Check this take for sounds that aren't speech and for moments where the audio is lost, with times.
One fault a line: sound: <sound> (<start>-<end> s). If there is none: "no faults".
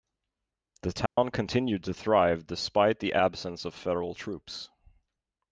sound: dropout (1.1-1.2 s)